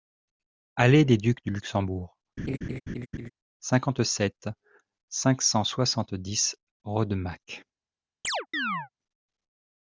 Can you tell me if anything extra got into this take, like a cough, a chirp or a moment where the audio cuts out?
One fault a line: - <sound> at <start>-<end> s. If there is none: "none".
- laugh at 2.4-3.3 s
- chirp at 8.2-8.9 s